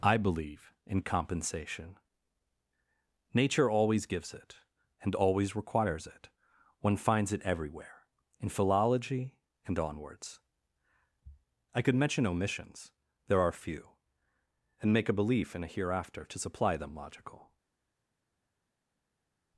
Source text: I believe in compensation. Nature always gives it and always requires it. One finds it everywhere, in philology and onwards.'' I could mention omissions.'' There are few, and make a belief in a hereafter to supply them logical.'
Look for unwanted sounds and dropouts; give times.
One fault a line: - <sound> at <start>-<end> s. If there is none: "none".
none